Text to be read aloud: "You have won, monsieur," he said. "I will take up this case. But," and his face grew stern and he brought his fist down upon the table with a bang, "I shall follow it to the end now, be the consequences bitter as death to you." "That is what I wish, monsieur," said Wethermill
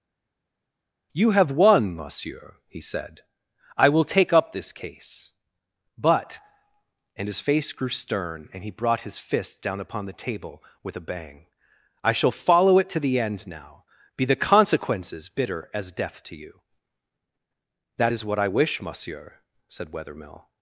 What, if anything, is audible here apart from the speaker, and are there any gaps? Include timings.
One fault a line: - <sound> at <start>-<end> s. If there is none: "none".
none